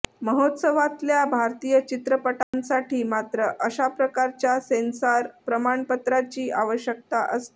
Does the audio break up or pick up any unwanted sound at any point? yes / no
yes